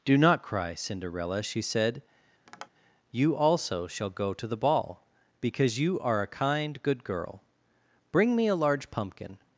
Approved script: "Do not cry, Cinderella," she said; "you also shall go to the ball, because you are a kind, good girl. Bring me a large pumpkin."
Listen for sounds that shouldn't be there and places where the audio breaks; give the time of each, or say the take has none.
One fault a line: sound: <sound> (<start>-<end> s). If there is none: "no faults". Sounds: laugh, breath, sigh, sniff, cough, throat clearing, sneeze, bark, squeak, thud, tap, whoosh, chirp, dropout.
sound: tap (2.5-2.7 s)